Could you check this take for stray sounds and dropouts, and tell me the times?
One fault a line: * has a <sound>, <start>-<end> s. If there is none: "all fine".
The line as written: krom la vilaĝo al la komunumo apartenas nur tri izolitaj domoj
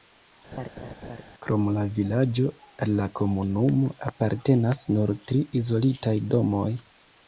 * has a laugh, 0.5-1.2 s